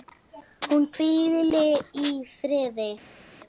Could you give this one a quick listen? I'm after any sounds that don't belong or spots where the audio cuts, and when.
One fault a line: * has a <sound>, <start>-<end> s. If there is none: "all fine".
all fine